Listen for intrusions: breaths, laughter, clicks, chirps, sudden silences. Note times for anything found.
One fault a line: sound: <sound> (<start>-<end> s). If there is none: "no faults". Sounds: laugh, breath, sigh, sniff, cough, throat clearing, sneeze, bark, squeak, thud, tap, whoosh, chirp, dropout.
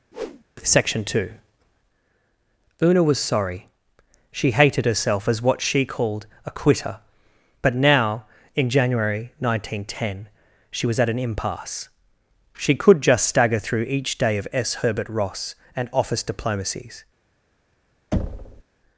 sound: whoosh (0.1-0.4 s)
sound: thud (18.1-18.6 s)